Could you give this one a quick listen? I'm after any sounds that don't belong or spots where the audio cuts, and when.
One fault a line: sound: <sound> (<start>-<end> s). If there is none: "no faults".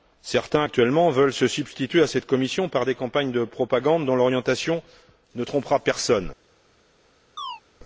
sound: chirp (7.4-7.6 s)